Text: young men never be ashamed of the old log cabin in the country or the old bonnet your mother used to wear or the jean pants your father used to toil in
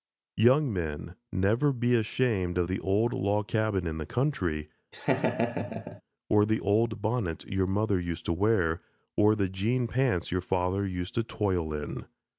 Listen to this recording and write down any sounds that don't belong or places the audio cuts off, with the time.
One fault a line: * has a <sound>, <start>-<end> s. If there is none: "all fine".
* has a laugh, 4.9-6.0 s